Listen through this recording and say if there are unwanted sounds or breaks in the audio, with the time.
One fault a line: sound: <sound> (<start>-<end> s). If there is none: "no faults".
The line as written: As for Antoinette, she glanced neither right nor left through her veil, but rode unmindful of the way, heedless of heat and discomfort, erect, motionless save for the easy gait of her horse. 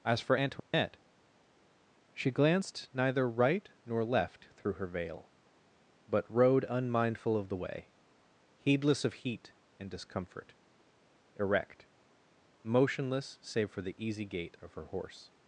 sound: dropout (0.6-0.7 s)